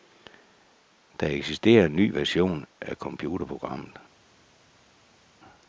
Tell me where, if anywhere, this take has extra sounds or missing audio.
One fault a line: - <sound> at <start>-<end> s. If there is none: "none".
none